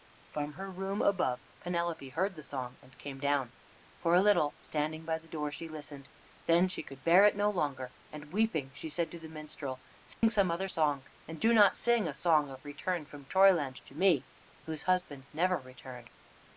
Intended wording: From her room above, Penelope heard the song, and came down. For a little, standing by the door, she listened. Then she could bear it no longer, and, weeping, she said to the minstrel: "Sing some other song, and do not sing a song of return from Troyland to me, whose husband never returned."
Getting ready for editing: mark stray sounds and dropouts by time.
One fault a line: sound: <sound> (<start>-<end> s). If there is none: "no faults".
sound: dropout (10.1-10.2 s)